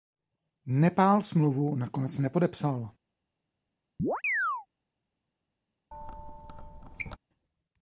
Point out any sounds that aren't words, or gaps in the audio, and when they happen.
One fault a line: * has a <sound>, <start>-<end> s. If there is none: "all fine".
* has a chirp, 4.0-4.7 s
* has a squeak, 5.9-7.2 s